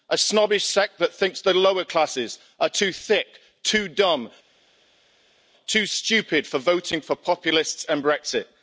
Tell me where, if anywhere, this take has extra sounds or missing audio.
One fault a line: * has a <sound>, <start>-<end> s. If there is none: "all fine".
all fine